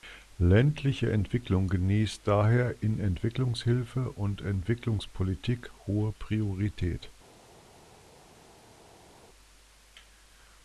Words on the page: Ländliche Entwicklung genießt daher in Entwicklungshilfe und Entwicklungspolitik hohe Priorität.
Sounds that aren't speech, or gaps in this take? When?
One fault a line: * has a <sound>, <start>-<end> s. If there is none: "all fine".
all fine